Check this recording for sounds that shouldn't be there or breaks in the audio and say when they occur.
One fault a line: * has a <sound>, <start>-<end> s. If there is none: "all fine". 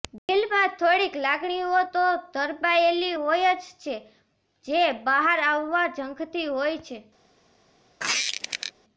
* has a dropout, 0.2-0.3 s
* has a squeak, 8.0-8.7 s